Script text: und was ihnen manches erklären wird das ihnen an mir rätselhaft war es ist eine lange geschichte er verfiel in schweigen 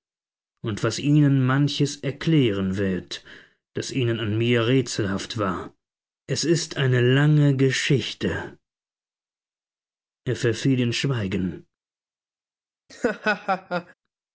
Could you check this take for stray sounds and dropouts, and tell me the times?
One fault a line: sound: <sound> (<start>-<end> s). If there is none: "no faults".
sound: laugh (12.9-13.9 s)